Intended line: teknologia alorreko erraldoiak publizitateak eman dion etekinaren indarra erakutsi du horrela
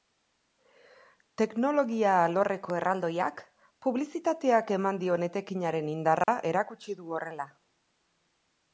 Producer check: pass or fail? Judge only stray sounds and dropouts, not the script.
fail